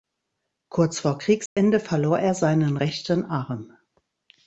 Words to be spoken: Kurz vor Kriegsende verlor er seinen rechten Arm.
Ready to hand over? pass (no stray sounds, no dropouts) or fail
fail